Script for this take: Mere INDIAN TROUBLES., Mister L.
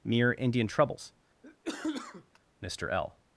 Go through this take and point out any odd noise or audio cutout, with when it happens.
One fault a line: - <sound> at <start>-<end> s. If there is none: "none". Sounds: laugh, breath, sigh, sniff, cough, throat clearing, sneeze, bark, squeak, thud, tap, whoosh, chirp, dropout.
- cough at 1.4-2.4 s